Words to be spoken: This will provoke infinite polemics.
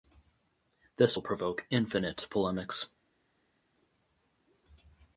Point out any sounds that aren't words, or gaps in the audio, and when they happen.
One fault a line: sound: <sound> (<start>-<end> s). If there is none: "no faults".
no faults